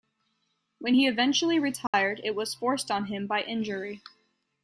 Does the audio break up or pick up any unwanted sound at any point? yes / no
yes